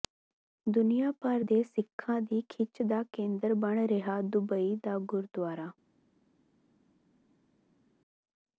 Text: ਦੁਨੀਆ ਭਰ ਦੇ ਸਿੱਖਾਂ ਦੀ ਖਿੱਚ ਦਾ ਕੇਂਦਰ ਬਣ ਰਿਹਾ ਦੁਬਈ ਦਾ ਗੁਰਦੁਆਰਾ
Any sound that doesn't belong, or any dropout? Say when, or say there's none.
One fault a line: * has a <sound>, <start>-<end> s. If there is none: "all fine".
all fine